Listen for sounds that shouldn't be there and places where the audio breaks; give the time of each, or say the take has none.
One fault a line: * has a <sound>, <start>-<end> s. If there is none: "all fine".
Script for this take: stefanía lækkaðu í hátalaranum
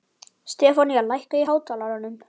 all fine